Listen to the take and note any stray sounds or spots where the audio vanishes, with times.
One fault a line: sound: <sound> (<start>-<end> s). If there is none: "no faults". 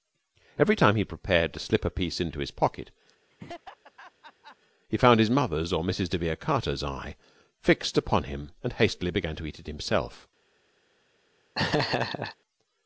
sound: laugh (3.3-4.6 s)
sound: laugh (11.5-12.4 s)